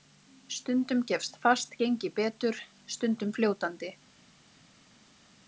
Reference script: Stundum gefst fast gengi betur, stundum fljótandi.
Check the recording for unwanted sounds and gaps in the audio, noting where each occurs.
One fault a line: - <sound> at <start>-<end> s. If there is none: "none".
none